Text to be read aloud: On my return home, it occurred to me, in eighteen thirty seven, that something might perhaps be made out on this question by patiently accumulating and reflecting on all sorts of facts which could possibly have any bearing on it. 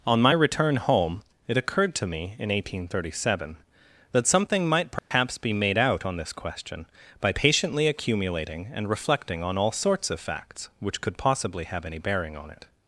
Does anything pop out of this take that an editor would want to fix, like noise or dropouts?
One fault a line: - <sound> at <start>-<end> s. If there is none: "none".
- dropout at 5.0-5.1 s